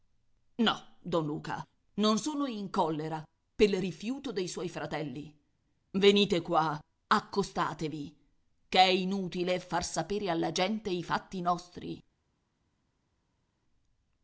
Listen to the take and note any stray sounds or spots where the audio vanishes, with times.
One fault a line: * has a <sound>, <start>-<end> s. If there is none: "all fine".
all fine